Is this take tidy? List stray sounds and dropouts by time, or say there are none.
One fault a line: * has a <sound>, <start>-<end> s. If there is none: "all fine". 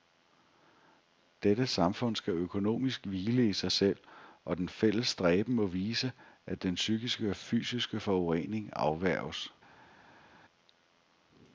all fine